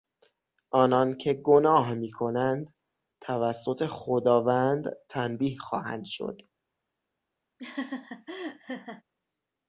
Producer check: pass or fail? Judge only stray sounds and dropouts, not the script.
fail